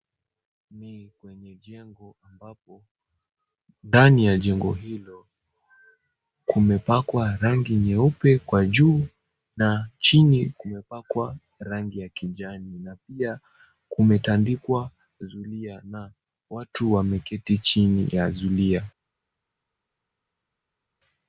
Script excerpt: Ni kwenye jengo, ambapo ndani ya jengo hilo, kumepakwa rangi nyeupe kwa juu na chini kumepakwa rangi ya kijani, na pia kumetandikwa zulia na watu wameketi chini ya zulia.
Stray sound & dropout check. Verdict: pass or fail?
pass